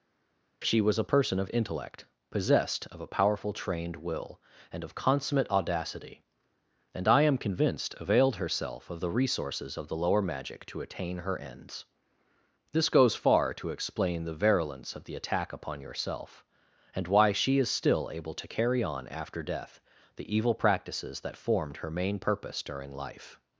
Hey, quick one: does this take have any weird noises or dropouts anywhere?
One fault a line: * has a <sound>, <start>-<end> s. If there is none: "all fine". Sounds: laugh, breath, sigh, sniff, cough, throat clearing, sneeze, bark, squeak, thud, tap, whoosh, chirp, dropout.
all fine